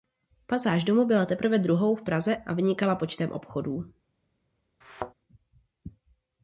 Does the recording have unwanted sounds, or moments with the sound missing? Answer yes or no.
yes